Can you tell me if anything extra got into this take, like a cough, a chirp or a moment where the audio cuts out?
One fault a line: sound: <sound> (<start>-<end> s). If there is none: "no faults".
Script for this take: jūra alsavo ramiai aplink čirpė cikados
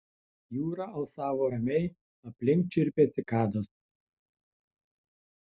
no faults